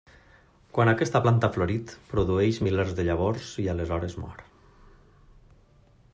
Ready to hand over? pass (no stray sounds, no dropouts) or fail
pass